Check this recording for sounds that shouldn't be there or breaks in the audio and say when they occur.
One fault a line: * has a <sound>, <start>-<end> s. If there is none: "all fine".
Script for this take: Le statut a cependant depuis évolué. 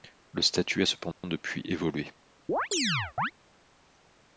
* has a dropout, 1.1-1.2 s
* has a chirp, 2.5-3.3 s